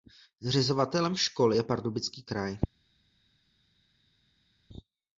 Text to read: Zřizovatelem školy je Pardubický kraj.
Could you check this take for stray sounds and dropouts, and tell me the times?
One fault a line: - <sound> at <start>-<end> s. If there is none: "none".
none